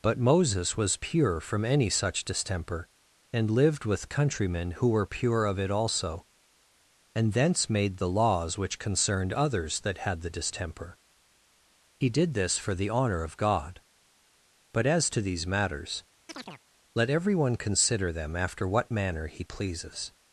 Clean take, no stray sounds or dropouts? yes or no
no